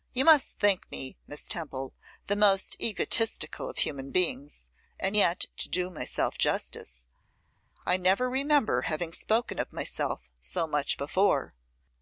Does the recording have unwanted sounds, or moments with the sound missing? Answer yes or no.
no